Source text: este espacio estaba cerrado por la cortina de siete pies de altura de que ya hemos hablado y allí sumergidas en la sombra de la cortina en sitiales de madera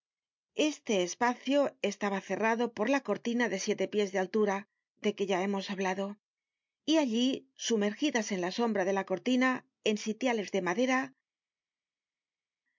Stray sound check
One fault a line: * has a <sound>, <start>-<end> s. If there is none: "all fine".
all fine